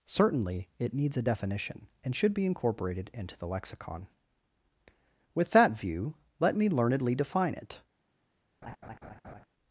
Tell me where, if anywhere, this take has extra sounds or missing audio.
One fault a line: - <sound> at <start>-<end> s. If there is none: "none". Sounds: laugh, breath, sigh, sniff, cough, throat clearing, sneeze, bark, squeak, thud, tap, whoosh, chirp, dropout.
- laugh at 8.6-9.5 s